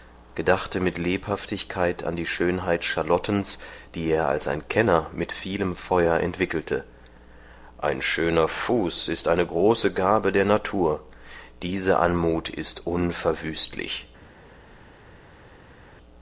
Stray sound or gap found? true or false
false